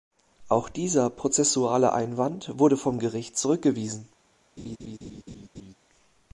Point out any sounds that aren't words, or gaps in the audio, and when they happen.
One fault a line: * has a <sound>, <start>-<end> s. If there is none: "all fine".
* has a laugh, 4.6-5.7 s